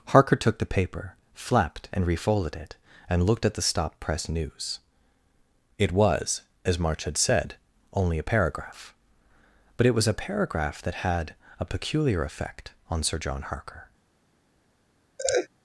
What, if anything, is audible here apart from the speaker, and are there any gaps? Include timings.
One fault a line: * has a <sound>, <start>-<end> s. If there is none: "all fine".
* has a laugh, 15.2-15.5 s